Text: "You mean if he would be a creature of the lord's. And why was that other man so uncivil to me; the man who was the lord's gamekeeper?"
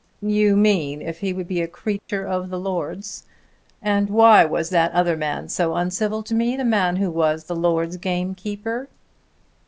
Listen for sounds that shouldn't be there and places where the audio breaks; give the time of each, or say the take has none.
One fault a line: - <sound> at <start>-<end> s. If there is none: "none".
- dropout at 2.0-2.1 s